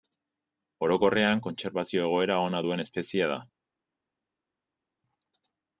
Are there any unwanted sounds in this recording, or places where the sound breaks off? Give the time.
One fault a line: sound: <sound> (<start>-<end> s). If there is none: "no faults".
no faults